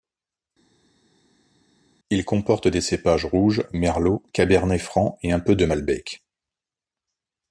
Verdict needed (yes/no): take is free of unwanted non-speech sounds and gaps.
yes